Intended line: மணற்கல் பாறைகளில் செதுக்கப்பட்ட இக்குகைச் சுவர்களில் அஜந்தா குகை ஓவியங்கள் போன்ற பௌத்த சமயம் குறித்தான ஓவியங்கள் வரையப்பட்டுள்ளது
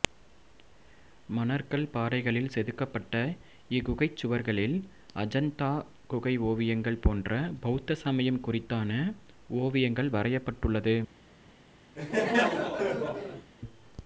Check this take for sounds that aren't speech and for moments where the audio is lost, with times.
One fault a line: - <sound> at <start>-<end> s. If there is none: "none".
- laugh at 12.0-13.5 s